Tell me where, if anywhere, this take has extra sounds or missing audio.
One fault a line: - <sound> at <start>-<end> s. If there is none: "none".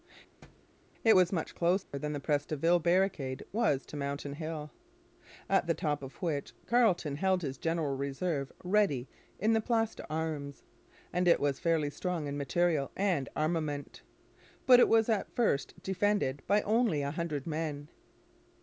- thud at 0.4-0.7 s
- dropout at 1.8-1.9 s